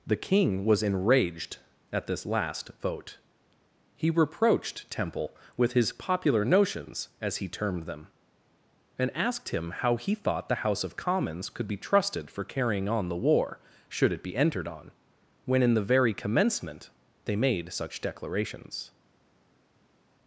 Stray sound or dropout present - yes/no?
no